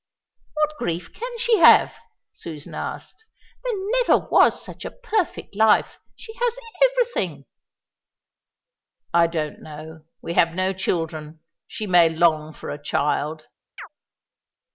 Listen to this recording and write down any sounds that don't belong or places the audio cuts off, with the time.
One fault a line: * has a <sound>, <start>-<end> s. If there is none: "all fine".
* has a chirp, 13.8-13.9 s